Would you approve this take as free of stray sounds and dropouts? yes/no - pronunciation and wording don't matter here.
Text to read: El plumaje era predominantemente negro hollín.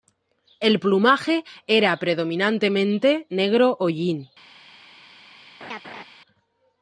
no